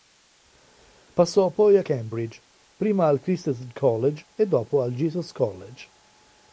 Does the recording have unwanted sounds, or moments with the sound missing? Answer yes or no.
no